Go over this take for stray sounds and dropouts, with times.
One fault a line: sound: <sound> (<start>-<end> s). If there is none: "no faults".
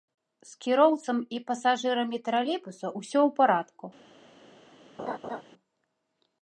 sound: laugh (5.0-5.4 s)